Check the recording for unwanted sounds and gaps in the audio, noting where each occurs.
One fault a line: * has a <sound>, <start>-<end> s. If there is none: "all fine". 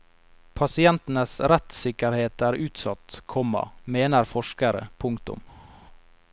all fine